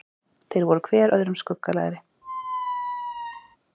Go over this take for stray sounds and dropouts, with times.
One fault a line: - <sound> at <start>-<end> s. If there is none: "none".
- squeak at 2.2-3.6 s